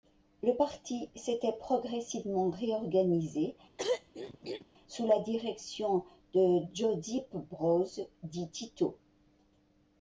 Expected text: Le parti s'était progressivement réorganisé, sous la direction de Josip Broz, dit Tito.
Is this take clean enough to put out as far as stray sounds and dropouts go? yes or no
no